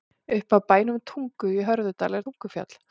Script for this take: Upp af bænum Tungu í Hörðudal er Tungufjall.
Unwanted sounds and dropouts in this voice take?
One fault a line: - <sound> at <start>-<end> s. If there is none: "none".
none